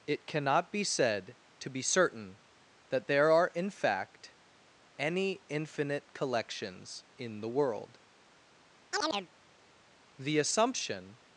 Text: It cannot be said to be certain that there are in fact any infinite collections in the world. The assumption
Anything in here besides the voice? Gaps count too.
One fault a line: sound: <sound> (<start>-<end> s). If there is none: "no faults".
sound: chirp (8.9-9.3 s)